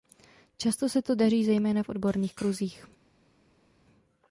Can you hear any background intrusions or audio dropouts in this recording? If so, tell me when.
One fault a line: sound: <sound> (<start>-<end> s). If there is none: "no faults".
no faults